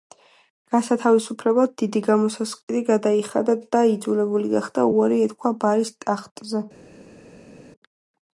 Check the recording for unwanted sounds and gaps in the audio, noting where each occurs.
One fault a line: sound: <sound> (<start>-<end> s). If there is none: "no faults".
no faults